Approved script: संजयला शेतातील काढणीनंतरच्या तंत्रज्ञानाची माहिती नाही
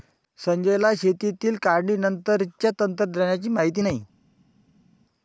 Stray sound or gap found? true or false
false